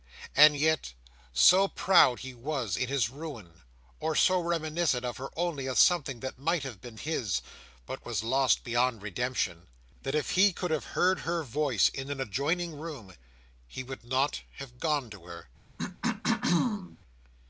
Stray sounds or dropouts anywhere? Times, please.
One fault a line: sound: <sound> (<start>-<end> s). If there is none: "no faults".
sound: throat clearing (15.8-17.0 s)